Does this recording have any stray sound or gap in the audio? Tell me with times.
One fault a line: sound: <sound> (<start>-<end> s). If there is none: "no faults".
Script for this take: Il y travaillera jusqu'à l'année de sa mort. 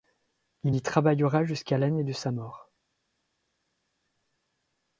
no faults